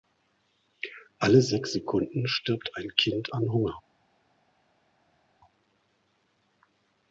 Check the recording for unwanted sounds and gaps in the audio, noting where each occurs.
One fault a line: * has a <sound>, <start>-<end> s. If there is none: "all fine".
all fine